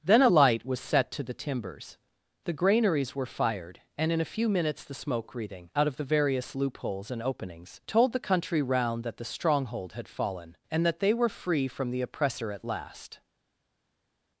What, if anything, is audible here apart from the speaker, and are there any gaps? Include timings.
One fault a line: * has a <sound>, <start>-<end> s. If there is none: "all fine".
all fine